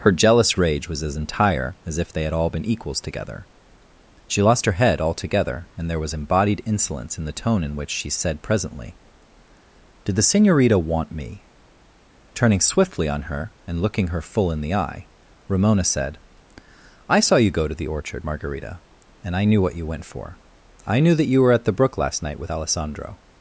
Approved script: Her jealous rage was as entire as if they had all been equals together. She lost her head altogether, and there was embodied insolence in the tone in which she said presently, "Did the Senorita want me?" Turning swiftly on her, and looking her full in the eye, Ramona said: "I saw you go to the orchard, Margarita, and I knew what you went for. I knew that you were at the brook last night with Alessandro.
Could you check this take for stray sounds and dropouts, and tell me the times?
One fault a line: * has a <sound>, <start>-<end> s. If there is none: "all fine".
all fine